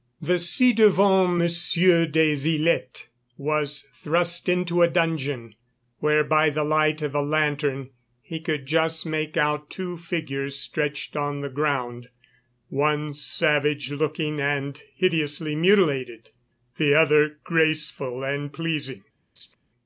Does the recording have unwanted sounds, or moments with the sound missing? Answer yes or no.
yes